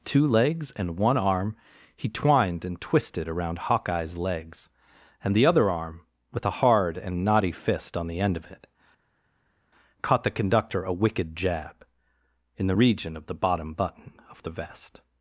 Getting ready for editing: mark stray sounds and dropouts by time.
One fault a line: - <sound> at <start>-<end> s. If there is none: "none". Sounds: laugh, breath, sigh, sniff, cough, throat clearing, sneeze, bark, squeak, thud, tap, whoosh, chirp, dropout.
none